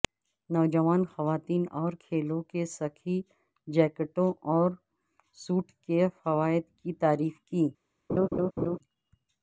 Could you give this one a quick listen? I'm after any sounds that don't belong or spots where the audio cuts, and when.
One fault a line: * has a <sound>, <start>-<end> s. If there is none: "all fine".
* has a laugh, 8.1-8.8 s